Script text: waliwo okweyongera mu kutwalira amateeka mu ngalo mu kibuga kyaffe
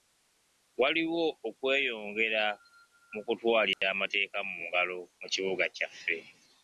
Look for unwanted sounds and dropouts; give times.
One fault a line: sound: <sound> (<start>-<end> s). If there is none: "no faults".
sound: dropout (3.7-3.8 s)